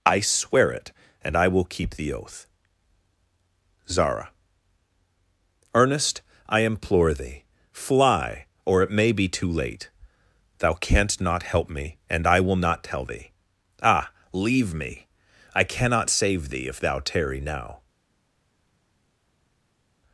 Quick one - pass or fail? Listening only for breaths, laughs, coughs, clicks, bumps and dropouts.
pass